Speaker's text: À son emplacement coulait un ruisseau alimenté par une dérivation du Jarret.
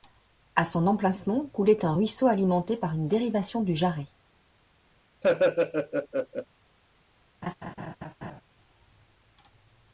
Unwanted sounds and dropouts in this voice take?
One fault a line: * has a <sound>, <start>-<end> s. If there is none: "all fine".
* has a laugh, 5.2-6.5 s
* has a laugh, 7.4-8.4 s